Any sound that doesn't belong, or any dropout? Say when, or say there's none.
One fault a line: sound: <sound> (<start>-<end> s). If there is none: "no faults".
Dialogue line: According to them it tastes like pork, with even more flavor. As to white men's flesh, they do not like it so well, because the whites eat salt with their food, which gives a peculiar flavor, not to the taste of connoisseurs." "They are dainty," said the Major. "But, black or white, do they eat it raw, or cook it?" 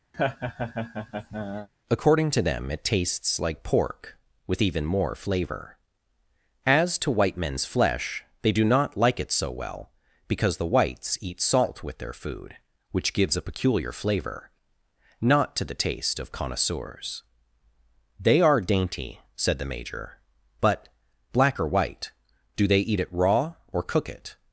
sound: laugh (0.1-1.7 s)